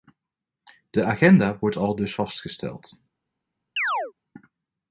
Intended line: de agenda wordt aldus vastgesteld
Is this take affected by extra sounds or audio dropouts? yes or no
yes